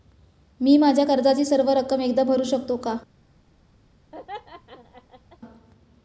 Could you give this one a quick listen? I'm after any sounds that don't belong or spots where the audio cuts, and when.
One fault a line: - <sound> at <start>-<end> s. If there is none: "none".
- laugh at 4.1-5.4 s